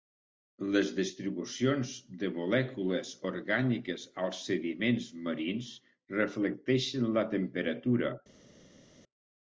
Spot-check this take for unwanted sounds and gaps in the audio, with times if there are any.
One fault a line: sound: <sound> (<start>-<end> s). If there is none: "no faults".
no faults